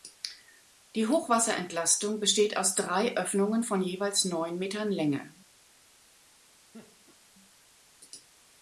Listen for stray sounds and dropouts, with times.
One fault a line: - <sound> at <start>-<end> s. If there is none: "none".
- laugh at 6.7-7.2 s